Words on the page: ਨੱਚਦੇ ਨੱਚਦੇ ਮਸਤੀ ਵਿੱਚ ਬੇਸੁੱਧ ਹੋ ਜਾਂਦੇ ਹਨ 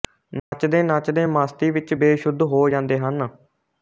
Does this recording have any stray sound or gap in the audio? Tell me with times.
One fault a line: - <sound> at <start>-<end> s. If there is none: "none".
- dropout at 0.4-0.5 s